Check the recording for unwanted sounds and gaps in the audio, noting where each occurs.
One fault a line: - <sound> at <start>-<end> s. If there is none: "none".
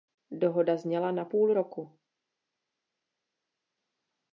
none